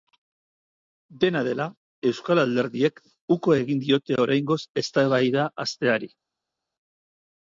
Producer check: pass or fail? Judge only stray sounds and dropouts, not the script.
pass